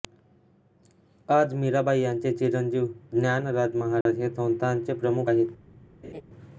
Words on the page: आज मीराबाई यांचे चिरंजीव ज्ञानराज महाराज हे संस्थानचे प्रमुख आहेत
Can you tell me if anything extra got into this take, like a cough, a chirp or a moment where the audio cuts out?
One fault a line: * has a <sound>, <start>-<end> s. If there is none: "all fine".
* has a dropout, 4.0-4.1 s
* has a laugh, 6.0-6.2 s